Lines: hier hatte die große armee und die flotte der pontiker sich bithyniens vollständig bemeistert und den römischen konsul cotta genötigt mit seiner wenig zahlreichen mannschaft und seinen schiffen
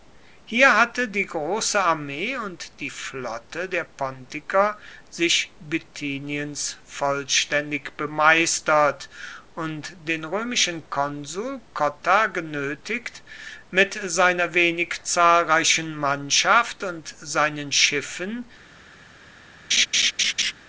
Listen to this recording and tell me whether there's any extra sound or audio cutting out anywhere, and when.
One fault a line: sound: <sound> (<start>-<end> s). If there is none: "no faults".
sound: laugh (19.7-20.5 s)